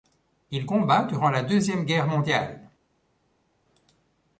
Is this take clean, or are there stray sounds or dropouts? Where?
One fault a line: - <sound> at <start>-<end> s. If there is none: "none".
none